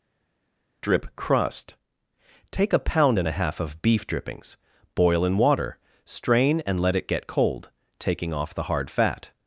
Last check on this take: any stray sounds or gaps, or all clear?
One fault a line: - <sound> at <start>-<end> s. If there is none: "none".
none